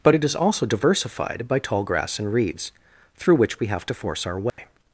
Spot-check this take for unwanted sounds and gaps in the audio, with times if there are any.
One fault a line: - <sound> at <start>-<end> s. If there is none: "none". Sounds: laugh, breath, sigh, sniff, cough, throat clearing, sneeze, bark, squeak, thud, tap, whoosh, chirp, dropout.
- dropout at 4.5-4.6 s